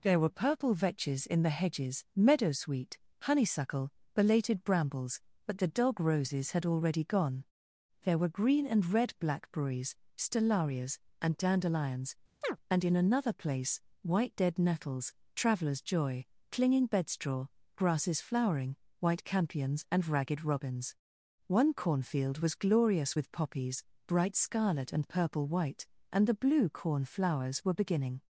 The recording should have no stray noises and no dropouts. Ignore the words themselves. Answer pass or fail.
fail